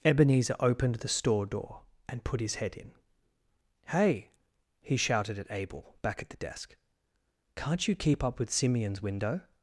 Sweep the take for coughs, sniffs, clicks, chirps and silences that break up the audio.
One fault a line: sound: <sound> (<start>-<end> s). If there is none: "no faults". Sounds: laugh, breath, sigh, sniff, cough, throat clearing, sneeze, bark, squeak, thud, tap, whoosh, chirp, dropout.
no faults